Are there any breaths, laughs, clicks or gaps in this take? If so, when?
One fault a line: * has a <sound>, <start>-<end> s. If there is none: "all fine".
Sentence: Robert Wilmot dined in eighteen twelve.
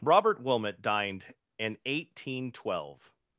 all fine